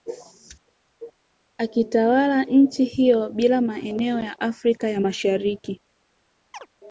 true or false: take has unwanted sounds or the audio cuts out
true